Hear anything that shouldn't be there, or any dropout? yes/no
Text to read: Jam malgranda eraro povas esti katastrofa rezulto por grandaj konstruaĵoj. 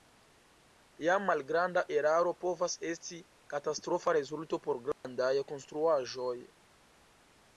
yes